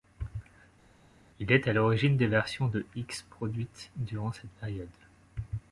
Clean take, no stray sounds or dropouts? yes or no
yes